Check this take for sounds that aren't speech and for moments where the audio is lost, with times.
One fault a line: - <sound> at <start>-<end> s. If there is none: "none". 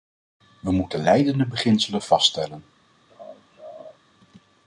- laugh at 3.1-4.0 s